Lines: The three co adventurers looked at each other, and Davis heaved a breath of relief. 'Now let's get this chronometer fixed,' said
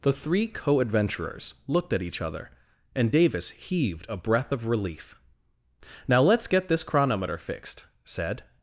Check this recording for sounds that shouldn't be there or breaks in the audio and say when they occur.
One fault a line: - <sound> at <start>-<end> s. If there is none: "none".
none